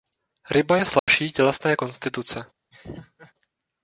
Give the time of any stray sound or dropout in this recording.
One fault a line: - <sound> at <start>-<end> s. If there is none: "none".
- dropout at 1.0-1.1 s
- laugh at 2.7-3.3 s